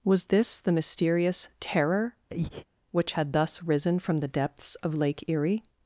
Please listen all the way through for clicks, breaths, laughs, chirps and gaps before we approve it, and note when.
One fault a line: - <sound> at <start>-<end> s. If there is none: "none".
- breath at 2.3-2.7 s